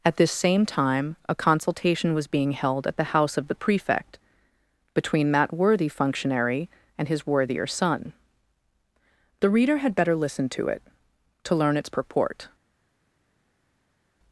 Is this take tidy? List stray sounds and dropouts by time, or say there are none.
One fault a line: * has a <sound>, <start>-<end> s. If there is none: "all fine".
all fine